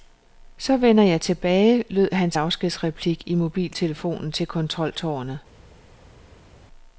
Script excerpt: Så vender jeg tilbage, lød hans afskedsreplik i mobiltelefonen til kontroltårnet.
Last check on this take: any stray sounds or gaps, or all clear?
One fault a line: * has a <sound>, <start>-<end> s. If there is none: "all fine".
all fine